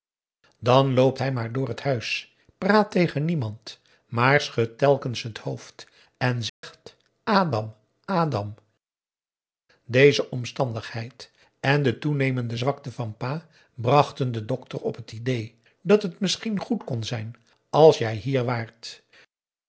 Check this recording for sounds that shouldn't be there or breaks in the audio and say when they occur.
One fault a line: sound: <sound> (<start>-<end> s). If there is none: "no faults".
sound: dropout (6.5-6.6 s)